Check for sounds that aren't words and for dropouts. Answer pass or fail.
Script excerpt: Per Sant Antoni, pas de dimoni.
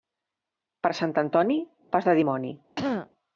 fail